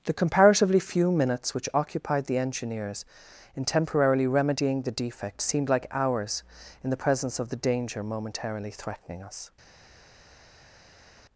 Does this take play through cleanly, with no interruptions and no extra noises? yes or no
yes